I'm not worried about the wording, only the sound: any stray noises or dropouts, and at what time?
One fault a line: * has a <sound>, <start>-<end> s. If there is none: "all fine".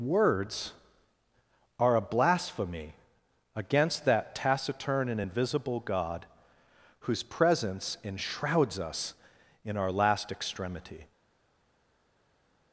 all fine